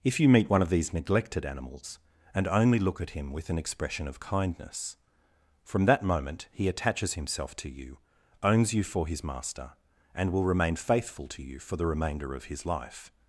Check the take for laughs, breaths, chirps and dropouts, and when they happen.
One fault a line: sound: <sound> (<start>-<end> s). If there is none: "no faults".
no faults